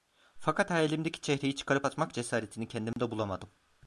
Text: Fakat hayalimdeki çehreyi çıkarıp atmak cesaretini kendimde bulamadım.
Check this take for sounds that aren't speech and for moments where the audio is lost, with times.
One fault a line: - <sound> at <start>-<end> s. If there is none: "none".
- dropout at 2.9-3.0 s